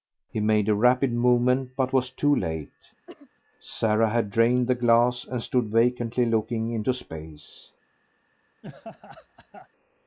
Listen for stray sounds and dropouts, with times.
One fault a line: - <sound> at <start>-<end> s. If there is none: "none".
- cough at 3.1-3.3 s
- laugh at 8.6-9.7 s